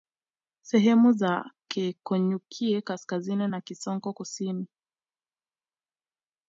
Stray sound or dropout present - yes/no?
no